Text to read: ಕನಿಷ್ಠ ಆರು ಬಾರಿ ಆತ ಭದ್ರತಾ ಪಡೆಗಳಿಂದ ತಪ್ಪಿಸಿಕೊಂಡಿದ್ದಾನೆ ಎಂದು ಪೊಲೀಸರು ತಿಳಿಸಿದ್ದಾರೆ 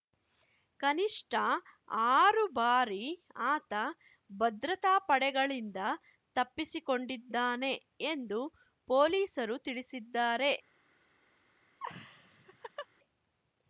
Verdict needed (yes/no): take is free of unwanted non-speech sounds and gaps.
no